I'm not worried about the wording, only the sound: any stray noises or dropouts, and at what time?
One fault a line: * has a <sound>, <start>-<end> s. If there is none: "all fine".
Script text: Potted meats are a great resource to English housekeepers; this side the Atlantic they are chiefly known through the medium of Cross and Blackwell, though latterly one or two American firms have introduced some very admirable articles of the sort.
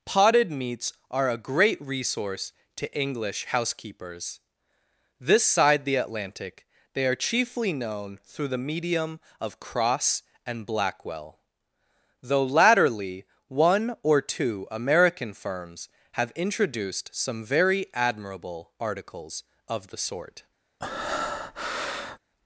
* has a breath, 20.8-22.2 s